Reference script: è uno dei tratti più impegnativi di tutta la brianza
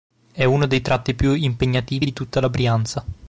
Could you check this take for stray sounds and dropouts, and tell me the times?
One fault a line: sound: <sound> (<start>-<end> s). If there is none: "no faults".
no faults